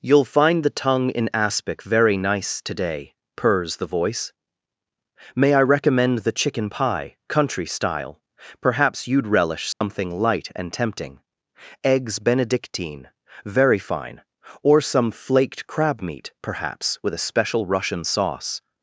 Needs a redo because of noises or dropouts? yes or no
yes